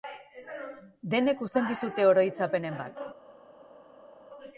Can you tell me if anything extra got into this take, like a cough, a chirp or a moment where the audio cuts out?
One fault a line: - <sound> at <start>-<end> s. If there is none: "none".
none